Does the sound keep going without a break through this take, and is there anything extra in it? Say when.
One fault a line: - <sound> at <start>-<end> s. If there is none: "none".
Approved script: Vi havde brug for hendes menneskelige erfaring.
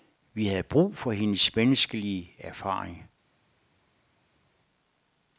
none